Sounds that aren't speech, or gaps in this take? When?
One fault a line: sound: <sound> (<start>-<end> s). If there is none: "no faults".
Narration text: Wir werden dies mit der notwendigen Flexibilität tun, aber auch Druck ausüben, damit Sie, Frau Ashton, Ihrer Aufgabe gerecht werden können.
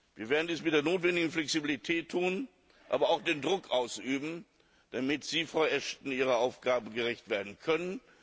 no faults